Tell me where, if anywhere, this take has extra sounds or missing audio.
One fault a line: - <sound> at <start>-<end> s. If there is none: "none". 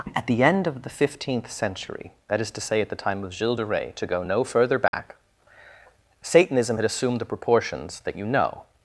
- dropout at 4.9-4.9 s